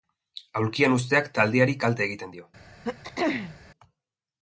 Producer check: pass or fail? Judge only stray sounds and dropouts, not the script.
fail